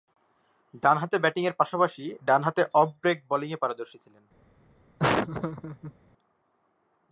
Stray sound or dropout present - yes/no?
yes